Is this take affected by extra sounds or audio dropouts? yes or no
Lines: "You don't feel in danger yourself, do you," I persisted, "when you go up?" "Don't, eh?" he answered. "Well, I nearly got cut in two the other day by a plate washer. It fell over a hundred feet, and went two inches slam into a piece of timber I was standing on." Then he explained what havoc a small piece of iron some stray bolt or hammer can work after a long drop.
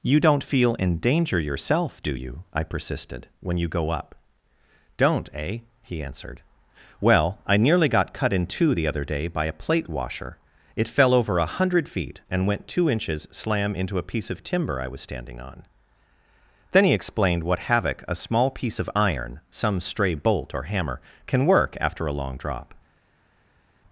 no